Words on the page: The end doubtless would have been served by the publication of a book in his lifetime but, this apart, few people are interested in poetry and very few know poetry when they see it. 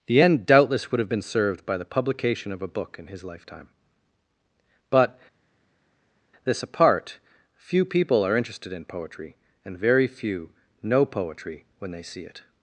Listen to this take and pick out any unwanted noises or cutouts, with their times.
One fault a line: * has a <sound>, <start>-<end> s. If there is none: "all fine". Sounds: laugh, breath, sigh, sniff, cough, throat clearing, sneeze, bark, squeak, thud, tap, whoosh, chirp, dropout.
all fine